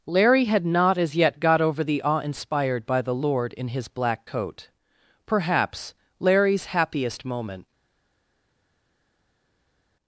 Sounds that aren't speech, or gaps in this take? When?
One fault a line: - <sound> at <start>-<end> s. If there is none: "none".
none